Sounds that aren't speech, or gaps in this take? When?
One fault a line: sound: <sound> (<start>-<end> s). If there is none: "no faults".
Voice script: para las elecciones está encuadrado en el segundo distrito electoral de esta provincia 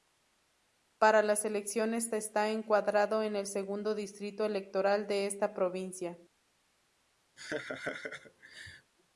sound: laugh (7.4-8.9 s)